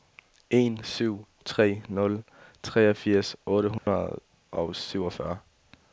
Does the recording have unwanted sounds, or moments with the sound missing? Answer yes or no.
yes